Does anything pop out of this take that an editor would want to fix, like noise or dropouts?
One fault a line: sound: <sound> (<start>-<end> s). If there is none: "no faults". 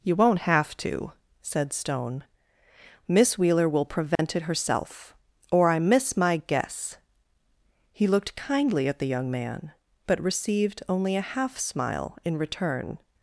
sound: dropout (4.1-4.2 s)